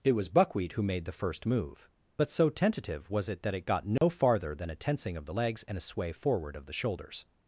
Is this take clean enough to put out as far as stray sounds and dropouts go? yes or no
no